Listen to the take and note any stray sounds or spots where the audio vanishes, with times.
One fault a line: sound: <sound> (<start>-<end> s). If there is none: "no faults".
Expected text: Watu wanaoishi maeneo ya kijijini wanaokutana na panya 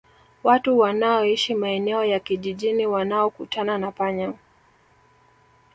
no faults